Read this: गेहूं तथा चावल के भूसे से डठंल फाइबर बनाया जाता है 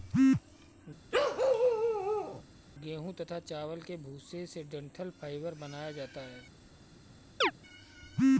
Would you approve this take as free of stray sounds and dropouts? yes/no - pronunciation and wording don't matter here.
no